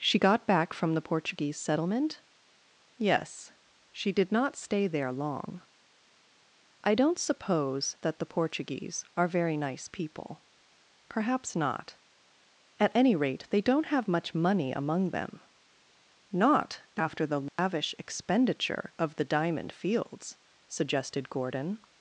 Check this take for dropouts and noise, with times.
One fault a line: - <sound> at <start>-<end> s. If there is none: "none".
- dropout at 17.5-17.6 s